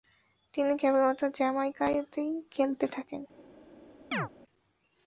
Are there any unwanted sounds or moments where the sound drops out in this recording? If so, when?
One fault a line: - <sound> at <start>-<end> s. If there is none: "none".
- chirp at 4.1-4.3 s